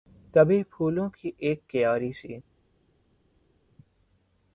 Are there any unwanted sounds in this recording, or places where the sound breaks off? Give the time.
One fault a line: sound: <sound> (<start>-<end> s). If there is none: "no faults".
no faults